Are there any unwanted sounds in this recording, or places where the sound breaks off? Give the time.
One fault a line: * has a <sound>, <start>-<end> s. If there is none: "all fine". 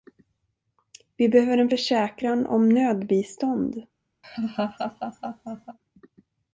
* has a laugh, 4.2-5.8 s